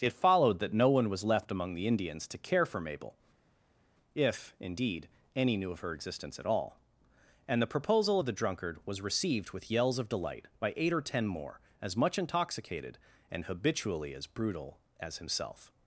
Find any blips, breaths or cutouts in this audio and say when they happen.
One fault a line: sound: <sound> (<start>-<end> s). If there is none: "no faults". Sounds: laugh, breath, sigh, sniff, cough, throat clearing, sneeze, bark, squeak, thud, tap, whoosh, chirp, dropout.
no faults